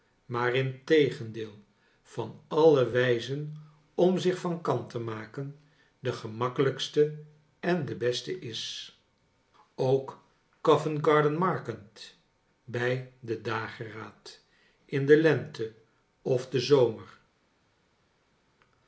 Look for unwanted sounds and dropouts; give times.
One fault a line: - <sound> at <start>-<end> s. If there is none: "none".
none